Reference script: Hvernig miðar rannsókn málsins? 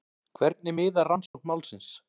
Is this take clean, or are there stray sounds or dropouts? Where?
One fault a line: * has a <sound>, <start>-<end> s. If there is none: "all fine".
* has a dropout, 1.3-1.3 s